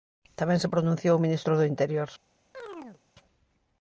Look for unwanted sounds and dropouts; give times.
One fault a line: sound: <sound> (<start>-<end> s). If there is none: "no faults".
sound: chirp (2.5-3.0 s)